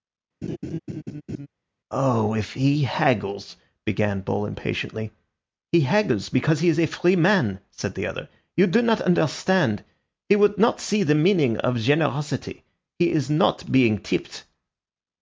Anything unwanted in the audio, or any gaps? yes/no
yes